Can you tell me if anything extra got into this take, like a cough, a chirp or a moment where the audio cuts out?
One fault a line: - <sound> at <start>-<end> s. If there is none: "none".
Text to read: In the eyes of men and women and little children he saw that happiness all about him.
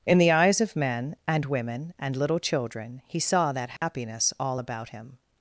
- dropout at 3.8-3.8 s